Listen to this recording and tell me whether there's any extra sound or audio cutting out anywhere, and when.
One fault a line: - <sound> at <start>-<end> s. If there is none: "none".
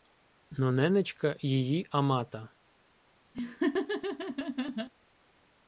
- laugh at 3.3-4.9 s